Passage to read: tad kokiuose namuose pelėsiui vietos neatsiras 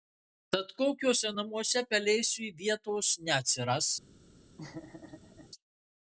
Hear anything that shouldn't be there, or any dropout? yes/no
yes